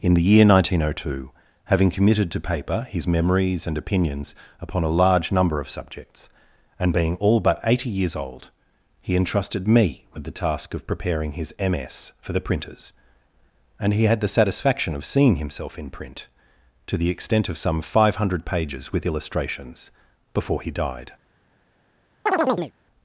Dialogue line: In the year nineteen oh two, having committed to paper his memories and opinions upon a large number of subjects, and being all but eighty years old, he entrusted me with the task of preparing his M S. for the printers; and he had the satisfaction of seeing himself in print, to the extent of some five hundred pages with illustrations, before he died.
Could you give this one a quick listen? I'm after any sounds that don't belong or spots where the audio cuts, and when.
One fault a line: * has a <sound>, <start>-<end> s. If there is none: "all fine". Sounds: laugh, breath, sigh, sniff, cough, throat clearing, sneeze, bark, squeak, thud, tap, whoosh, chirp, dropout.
* has a chirp, 22.3-22.7 s